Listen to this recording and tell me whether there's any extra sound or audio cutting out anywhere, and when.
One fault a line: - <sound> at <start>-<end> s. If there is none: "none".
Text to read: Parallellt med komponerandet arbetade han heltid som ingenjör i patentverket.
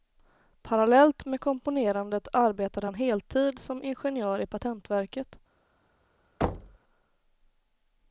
- thud at 6.4-6.8 s